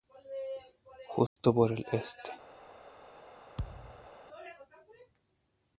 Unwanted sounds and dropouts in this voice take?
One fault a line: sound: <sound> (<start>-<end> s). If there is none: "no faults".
sound: dropout (1.3-1.4 s)
sound: thud (3.6-4.1 s)